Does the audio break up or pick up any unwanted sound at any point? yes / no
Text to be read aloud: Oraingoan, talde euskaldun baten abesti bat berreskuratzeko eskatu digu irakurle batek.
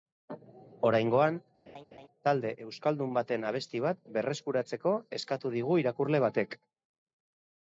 yes